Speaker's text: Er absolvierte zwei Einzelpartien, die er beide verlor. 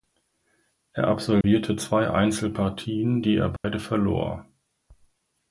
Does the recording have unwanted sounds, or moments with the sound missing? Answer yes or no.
yes